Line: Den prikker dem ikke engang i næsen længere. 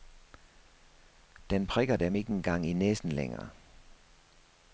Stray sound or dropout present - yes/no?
no